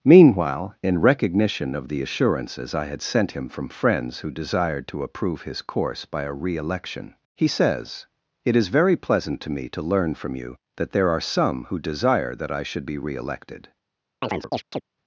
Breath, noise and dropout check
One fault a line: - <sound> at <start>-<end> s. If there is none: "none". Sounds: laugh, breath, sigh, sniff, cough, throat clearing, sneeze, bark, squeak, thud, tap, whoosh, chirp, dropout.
- chirp at 14.2-14.8 s